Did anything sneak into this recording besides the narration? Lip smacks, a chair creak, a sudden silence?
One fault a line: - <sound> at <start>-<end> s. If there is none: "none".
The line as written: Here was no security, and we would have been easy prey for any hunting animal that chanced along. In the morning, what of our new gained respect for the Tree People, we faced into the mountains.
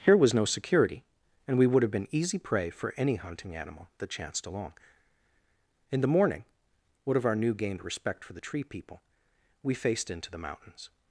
none